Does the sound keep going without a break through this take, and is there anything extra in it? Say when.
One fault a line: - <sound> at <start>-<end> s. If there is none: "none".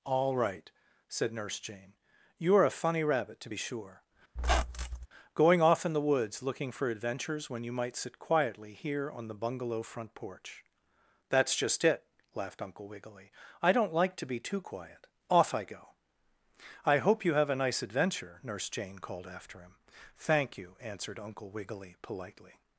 - squeak at 4.4-5.1 s